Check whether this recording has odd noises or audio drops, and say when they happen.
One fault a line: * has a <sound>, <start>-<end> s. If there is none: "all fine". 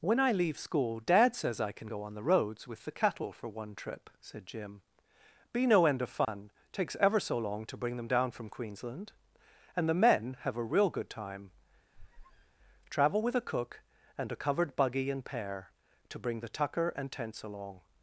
* has a dropout, 6.2-6.3 s
* has a squeak, 11.9-12.6 s